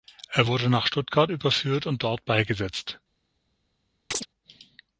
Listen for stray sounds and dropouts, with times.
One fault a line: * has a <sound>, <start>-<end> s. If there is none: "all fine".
* has a chirp, 4.1-4.3 s